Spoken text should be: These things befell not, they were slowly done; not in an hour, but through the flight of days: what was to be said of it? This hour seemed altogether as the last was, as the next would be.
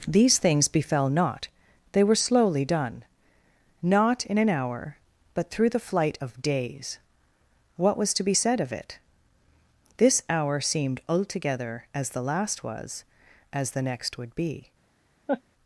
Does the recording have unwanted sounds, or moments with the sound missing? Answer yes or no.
yes